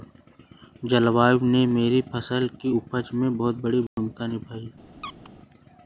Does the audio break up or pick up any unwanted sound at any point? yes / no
yes